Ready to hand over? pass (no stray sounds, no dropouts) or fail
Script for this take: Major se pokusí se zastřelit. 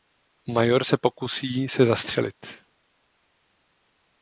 pass